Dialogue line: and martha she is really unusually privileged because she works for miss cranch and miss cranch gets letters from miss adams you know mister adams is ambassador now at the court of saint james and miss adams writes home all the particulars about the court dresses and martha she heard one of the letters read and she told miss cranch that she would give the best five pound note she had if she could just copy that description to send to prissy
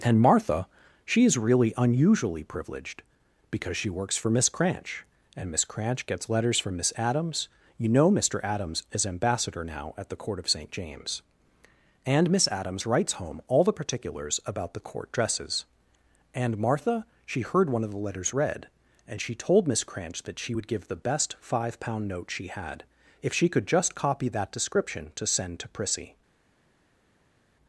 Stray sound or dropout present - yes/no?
no